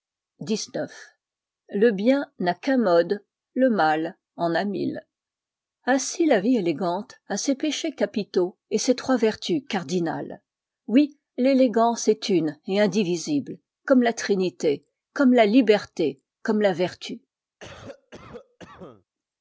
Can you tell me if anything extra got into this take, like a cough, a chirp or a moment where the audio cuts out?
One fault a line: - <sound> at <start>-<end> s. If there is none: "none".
- cough at 17.6-19.0 s